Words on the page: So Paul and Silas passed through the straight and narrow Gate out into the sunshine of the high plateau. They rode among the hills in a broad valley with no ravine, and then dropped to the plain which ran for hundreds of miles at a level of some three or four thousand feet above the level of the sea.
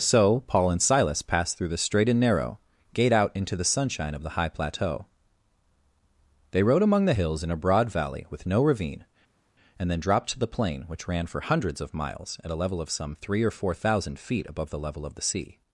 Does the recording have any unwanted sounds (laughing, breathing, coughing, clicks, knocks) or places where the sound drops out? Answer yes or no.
no